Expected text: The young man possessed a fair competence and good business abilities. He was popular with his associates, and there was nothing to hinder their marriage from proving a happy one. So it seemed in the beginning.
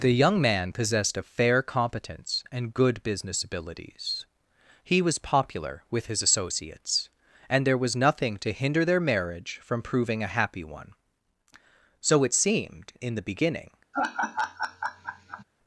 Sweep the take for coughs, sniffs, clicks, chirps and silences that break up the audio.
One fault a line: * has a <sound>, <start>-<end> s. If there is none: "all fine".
* has a laugh, 13.9-15.4 s